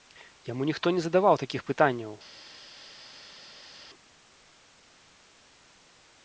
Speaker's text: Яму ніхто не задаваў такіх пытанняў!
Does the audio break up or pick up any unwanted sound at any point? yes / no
no